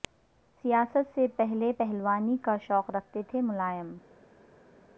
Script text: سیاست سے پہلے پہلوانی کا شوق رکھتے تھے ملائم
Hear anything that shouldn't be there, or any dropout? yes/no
no